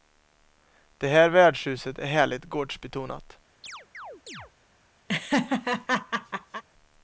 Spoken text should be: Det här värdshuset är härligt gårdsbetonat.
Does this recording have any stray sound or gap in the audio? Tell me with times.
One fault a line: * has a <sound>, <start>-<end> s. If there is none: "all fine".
* has a chirp, 3.6-4.5 s
* has a laugh, 5.1-6.6 s